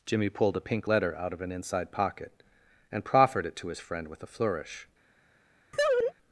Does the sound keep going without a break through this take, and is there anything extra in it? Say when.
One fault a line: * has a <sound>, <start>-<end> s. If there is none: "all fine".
* has a laugh, 5.7-6.1 s